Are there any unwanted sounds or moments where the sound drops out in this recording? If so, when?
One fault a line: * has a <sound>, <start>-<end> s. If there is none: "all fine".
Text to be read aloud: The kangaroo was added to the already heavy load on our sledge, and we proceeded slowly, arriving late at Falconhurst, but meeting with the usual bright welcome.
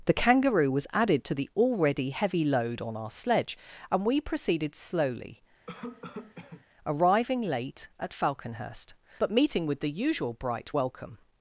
* has a cough, 5.7-6.6 s